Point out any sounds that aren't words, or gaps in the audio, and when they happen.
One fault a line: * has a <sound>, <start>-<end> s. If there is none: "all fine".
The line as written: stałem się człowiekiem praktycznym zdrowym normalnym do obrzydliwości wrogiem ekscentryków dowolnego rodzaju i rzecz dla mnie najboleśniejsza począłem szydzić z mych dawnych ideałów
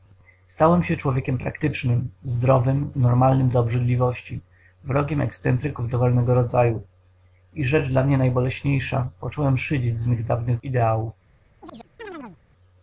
* has a chirp, 11.6-12.4 s